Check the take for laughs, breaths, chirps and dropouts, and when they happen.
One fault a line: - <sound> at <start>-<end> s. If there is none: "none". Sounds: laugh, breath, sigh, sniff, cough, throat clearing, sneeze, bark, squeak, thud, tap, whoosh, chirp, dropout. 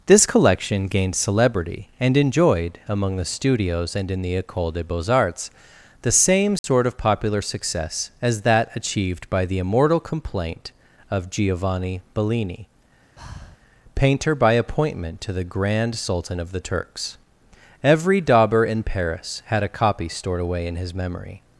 - dropout at 6.6-6.6 s
- breath at 13.2-13.6 s